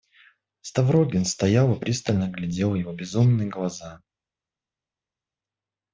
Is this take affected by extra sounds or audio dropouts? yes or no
no